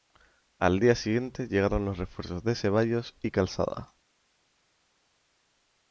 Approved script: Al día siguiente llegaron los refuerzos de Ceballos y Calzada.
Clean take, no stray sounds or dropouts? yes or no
yes